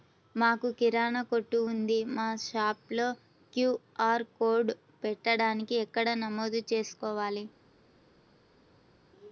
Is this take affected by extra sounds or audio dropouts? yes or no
no